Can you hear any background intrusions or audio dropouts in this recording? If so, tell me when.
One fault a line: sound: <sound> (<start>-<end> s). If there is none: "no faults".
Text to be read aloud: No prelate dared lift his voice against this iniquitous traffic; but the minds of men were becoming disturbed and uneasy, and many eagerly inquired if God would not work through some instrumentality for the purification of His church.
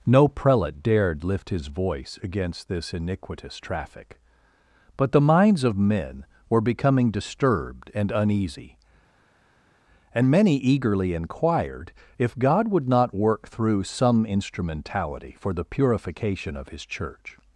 no faults